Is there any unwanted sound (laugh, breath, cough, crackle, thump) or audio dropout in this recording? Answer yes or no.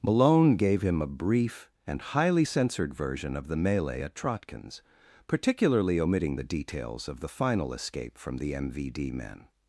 no